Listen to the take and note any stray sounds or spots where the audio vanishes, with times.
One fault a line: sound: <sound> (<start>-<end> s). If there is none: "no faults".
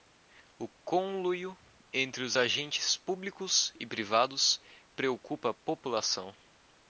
no faults